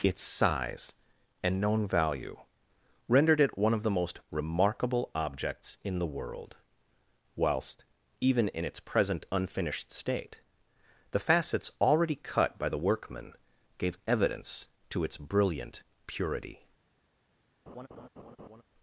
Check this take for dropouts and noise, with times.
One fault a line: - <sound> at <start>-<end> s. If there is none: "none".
- laugh at 17.7-18.6 s